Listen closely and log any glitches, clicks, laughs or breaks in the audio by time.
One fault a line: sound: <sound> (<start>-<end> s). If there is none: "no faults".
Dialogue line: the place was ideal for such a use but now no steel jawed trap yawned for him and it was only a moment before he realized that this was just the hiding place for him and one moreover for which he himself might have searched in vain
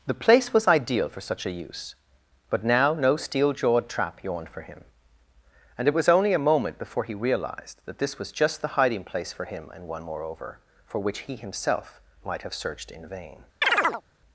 sound: chirp (13.6-14.0 s)